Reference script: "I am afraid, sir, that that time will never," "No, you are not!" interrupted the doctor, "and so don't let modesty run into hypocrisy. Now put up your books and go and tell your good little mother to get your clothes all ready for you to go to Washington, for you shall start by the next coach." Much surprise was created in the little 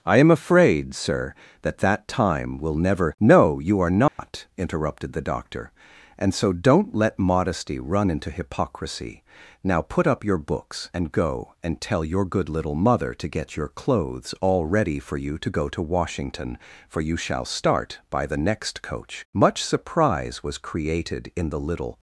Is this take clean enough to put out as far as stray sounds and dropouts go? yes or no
no